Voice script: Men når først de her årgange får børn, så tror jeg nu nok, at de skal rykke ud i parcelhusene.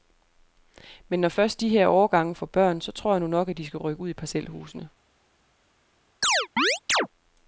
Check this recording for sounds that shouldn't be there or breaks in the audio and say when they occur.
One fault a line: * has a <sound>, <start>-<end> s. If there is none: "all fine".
* has a chirp, 6.2-7.1 s